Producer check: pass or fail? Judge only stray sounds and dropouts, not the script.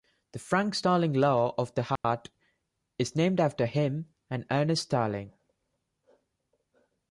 fail